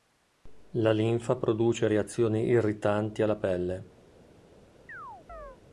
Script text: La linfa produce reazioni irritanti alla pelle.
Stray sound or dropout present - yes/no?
yes